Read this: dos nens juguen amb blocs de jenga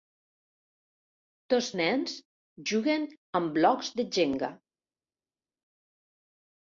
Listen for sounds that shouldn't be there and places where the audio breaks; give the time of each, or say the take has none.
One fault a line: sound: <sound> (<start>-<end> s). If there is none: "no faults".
no faults